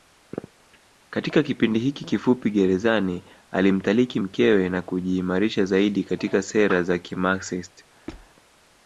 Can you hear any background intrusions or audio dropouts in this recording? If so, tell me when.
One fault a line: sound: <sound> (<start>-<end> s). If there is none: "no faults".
sound: squeak (8.1-8.3 s)